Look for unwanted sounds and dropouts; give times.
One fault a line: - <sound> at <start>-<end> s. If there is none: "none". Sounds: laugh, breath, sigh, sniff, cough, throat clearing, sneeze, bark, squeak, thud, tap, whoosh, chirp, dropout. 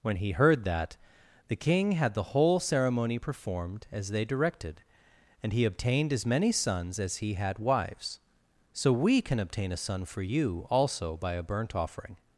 none